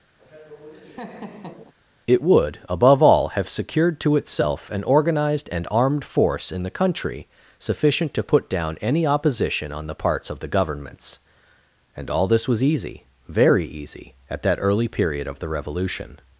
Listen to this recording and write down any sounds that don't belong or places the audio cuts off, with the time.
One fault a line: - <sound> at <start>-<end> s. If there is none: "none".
- laugh at 0.2-1.7 s